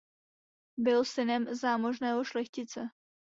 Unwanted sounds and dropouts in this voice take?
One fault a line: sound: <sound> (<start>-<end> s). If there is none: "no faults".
no faults